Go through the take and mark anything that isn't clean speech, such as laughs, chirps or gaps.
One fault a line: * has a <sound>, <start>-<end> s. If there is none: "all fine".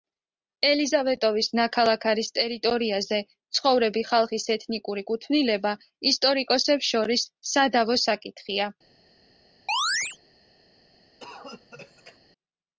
* has a chirp, 9.7-10.2 s
* has a cough, 11.2-12.2 s